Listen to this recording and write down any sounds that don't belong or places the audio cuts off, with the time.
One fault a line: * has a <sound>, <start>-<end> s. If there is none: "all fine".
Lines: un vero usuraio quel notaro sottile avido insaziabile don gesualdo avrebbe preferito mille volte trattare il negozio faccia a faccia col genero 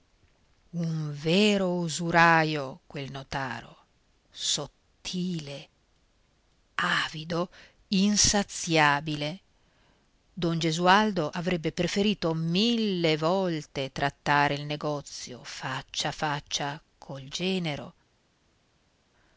all fine